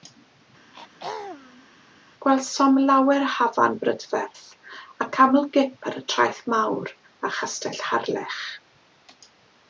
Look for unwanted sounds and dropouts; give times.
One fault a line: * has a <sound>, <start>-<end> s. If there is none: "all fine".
* has a throat clearing, 0.7-1.7 s